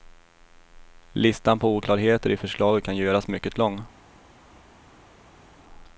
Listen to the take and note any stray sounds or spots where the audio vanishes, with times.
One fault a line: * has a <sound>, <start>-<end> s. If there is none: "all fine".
all fine